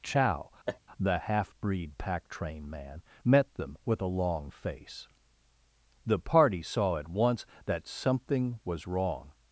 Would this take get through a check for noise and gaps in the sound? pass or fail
fail